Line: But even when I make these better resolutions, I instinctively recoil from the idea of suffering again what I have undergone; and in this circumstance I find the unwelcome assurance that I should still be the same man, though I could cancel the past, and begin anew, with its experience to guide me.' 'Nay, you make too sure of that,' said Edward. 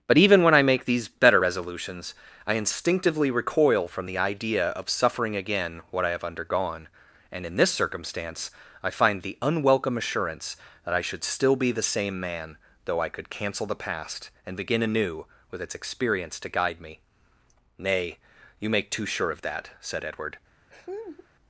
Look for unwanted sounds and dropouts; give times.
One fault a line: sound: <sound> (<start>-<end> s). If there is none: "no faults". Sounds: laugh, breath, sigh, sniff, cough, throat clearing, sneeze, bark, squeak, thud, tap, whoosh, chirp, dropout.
sound: laugh (20.7-21.3 s)